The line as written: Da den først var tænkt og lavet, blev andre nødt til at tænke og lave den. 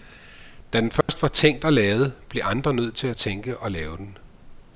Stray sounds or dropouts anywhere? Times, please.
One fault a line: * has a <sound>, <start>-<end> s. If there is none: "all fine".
* has a dropout, 1.0-1.1 s